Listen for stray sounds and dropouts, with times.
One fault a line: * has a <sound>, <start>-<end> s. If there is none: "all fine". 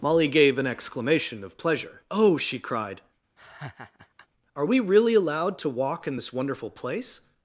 * has a laugh, 3.4-4.3 s